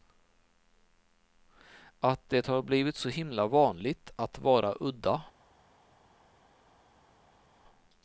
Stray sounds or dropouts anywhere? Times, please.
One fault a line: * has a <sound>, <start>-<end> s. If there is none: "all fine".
all fine